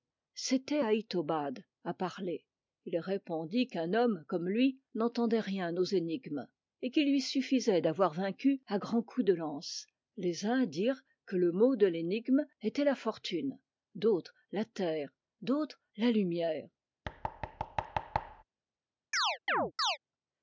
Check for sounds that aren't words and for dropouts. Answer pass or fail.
fail